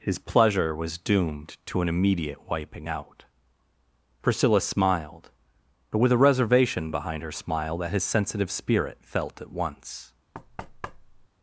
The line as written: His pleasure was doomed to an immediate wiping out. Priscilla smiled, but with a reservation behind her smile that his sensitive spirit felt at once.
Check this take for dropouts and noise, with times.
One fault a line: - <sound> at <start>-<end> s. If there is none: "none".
- thud at 10.3-11.3 s